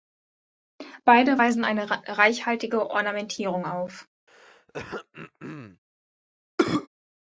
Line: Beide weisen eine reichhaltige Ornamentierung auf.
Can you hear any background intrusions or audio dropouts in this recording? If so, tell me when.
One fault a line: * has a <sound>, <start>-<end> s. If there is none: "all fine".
* has a throat clearing, 4.3-5.8 s
* has a cough, 6.6-6.9 s